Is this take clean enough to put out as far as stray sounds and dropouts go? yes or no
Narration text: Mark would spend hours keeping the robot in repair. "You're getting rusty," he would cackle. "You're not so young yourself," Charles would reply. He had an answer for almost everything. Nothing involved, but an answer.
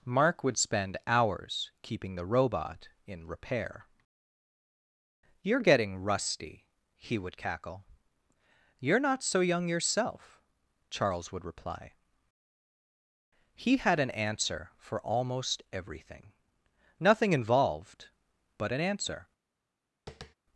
no